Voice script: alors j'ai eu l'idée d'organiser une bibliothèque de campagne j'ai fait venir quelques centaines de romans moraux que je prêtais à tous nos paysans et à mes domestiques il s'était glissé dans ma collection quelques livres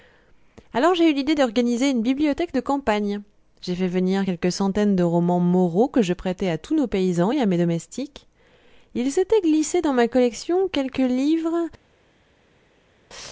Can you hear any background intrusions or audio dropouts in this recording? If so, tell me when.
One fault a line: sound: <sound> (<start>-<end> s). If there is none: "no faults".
no faults